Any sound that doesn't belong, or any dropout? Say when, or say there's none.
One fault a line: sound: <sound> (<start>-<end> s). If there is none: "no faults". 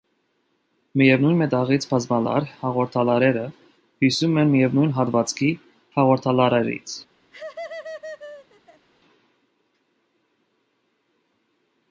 sound: laugh (7.3-8.9 s)